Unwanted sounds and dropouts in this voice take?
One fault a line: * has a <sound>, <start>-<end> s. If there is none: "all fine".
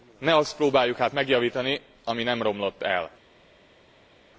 all fine